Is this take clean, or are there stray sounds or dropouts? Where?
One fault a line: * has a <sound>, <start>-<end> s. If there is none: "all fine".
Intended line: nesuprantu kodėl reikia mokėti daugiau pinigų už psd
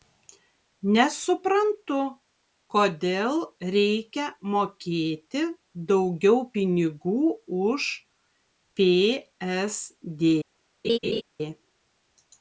* has a laugh, 10.8-11.2 s